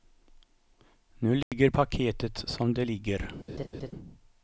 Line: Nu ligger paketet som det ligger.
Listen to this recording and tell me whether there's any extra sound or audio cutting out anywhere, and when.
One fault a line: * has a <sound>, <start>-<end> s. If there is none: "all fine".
* has a dropout, 1.4-1.5 s
* has a laugh, 3.5-3.9 s